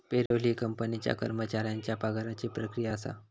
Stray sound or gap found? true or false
true